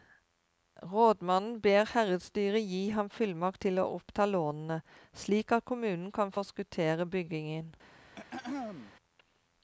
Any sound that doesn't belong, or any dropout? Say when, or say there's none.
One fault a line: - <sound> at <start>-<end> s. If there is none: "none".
- throat clearing at 8.2-8.9 s